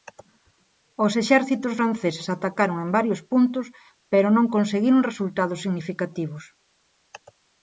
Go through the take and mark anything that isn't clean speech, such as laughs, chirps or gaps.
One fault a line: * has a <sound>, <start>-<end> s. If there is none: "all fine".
all fine